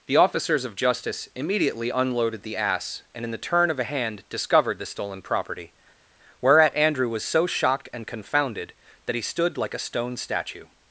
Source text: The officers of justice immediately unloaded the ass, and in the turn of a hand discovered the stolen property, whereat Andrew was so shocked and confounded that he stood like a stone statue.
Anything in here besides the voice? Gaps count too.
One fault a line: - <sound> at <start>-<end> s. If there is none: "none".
none